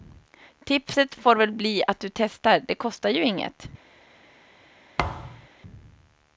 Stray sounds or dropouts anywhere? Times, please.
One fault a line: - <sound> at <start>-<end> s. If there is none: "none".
- thud at 5.0-5.5 s